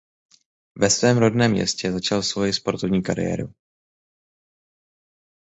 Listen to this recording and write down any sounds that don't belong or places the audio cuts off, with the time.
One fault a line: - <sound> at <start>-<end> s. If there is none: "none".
none